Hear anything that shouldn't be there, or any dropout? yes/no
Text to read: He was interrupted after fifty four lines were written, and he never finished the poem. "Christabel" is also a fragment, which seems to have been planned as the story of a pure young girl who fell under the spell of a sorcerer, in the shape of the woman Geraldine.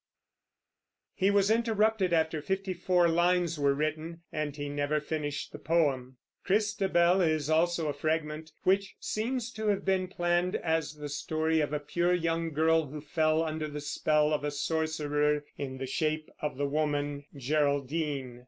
no